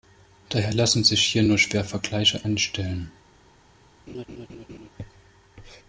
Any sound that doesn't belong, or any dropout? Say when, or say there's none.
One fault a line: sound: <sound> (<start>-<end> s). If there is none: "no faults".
sound: laugh (4.1-4.9 s)